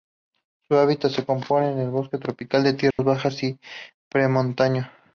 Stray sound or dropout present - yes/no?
yes